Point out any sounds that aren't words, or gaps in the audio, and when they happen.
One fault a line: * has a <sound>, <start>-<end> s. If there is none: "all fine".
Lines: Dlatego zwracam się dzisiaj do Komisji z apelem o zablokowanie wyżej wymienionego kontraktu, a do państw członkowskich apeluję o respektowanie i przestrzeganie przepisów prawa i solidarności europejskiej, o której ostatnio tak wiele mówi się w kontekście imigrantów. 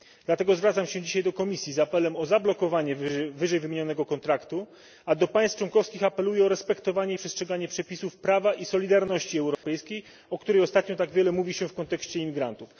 * has a dropout, 9.5-9.6 s